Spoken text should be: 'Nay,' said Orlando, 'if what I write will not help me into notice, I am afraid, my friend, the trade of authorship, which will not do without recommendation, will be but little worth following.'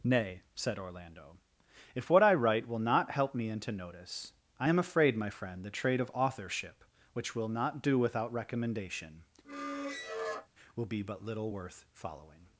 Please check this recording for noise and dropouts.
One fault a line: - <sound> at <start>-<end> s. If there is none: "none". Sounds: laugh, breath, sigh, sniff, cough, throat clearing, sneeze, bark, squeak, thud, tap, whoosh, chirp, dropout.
- squeak at 9.4-10.5 s